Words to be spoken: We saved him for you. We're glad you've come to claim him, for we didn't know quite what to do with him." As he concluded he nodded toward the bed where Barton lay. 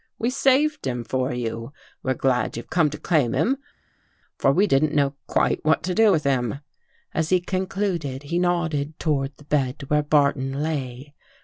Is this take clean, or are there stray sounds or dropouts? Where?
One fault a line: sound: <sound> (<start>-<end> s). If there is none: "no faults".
no faults